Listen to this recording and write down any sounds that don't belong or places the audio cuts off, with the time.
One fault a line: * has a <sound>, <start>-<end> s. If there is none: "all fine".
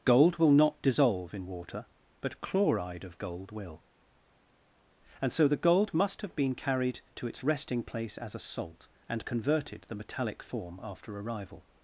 all fine